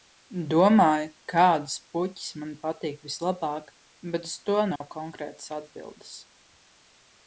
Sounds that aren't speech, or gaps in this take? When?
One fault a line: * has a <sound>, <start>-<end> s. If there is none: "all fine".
* has a dropout, 4.8-4.8 s